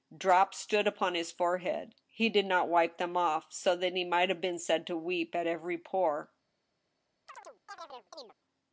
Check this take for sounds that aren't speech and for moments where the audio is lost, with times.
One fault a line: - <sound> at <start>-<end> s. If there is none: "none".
- chirp at 7.3-8.3 s